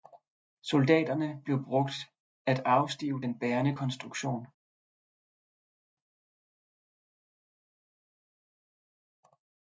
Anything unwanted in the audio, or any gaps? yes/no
no